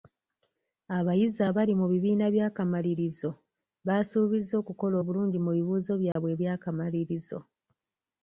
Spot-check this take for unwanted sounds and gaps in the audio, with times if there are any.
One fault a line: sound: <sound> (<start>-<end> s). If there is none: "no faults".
sound: dropout (6.1-6.2 s)